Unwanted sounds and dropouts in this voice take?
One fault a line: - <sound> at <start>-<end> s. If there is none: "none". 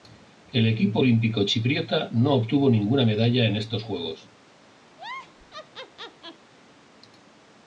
- laugh at 4.9-6.5 s